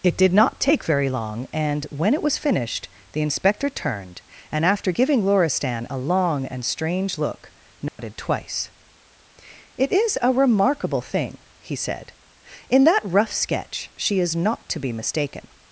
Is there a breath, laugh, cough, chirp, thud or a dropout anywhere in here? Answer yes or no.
yes